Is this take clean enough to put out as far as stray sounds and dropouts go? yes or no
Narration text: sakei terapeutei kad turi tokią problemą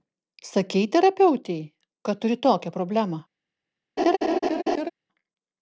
no